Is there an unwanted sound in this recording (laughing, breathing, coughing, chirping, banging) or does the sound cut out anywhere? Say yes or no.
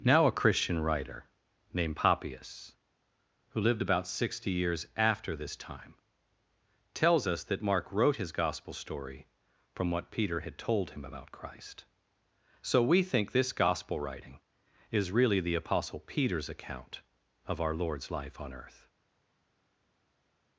no